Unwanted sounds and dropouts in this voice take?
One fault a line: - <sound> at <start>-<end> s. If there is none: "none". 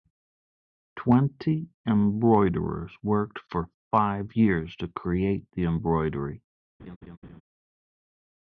- laugh at 6.8-7.4 s